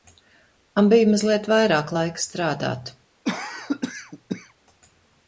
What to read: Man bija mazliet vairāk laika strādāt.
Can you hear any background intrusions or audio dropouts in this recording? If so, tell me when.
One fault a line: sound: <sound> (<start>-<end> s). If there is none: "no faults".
sound: cough (3.2-4.5 s)